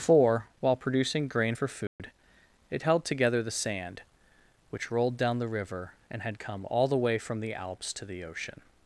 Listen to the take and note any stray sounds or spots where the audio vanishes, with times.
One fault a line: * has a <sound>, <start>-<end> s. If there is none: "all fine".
* has a dropout, 1.9-2.0 s